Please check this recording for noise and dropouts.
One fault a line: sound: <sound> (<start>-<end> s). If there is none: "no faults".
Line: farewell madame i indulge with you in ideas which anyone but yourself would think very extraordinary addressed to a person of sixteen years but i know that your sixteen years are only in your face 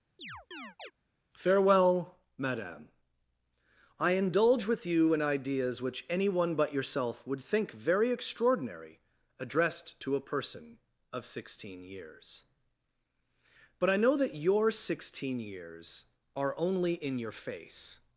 sound: chirp (0.2-0.9 s)